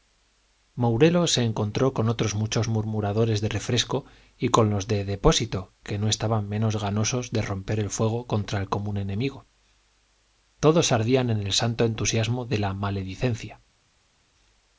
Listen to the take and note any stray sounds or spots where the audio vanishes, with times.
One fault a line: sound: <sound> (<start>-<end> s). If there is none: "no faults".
no faults